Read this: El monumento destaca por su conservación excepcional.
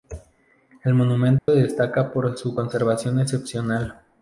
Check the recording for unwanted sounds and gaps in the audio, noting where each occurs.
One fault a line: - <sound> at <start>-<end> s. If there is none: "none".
- dropout at 1.4-1.5 s